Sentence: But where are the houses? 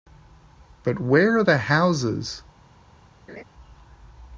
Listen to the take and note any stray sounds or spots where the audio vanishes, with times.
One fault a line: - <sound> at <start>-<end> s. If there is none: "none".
- laugh at 3.3-3.4 s